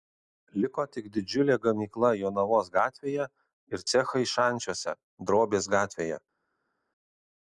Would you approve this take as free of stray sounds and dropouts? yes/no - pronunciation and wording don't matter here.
yes